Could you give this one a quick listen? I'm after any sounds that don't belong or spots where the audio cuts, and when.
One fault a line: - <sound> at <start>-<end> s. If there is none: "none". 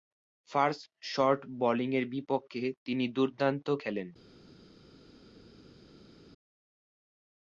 none